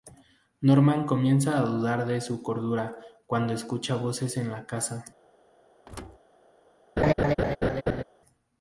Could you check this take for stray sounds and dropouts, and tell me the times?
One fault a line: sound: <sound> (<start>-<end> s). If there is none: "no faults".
sound: thud (5.9-6.2 s)
sound: laugh (7.0-8.0 s)